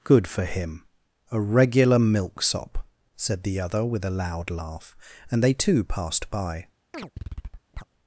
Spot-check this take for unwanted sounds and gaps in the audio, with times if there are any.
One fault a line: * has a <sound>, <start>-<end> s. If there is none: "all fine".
* has a chirp, 6.9-7.8 s